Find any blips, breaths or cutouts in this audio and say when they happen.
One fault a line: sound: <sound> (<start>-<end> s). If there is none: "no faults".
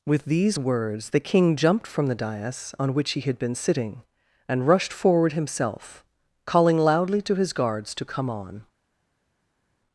no faults